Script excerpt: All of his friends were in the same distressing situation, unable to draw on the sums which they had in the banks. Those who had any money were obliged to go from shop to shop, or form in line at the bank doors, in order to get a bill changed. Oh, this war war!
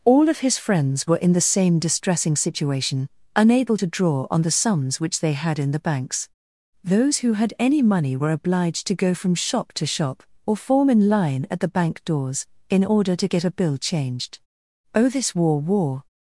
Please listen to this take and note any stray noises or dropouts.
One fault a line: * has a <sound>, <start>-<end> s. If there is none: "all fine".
all fine